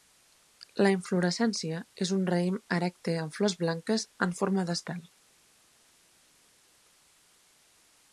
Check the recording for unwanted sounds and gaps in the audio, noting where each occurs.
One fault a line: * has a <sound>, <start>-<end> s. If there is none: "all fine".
all fine